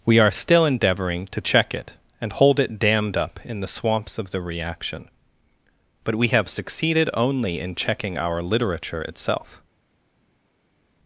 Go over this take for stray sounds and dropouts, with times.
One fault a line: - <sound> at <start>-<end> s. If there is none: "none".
none